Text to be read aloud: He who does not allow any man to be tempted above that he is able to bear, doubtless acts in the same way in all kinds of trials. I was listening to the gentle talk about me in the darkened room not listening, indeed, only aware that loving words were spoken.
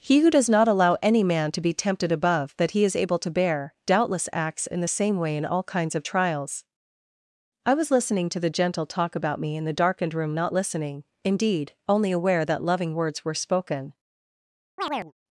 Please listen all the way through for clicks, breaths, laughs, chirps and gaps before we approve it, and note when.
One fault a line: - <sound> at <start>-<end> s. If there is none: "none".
- chirp at 14.8-15.1 s